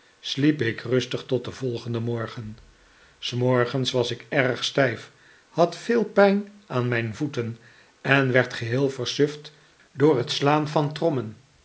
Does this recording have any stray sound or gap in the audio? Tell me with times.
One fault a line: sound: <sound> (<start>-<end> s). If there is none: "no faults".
no faults